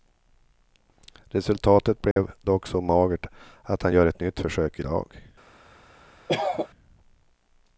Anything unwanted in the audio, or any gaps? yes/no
yes